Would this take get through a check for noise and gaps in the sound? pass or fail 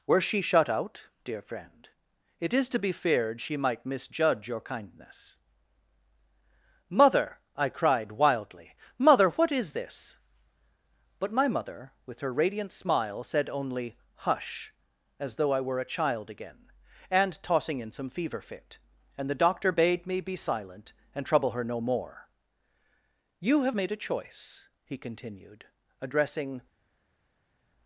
pass